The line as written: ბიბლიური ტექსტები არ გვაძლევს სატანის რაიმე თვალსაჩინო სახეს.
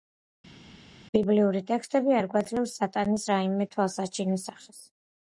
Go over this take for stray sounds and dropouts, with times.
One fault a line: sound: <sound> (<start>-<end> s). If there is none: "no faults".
no faults